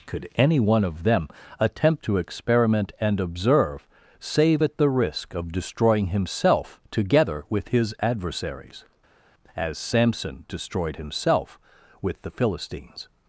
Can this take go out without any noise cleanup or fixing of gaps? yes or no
yes